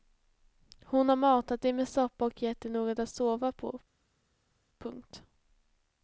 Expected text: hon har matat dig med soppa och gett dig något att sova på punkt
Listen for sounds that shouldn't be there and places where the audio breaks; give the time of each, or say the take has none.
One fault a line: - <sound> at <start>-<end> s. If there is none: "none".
none